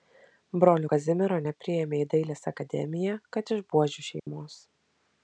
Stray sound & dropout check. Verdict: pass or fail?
fail